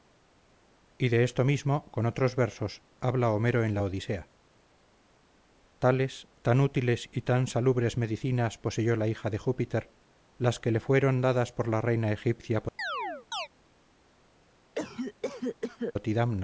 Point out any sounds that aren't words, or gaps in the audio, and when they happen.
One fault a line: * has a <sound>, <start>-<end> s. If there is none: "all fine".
* has a chirp, 12.8-13.5 s
* has a cough, 14.7-15.9 s